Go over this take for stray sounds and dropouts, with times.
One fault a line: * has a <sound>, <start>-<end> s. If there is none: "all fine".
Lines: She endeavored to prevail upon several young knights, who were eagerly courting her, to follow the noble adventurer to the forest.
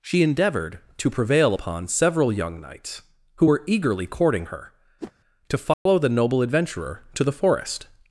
* has a whoosh, 5.0-5.1 s
* has a dropout, 5.7-5.9 s